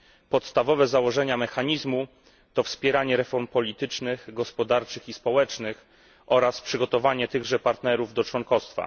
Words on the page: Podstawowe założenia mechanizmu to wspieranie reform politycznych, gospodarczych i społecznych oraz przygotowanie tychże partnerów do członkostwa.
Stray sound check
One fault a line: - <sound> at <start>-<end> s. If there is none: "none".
none